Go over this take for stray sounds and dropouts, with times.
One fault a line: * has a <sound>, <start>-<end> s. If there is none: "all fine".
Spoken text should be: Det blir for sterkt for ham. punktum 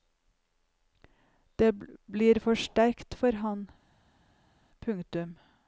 all fine